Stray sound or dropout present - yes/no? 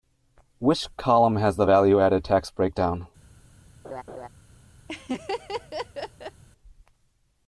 yes